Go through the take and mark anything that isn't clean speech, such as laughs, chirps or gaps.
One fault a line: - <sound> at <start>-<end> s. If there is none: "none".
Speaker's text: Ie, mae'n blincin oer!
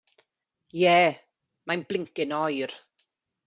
none